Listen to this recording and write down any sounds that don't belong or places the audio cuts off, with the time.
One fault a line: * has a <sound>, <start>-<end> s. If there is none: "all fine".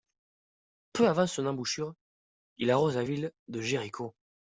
all fine